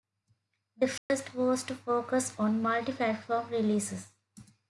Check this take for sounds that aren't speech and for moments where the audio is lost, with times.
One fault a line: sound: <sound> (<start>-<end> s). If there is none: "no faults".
sound: dropout (1.0-1.1 s)